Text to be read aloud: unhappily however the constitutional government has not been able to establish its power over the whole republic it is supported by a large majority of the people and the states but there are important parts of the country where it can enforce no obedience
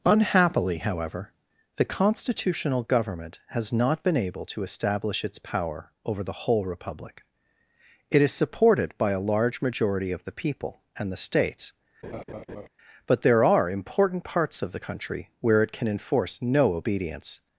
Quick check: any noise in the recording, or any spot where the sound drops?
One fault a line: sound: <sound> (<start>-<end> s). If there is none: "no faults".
sound: laugh (12.0-12.7 s)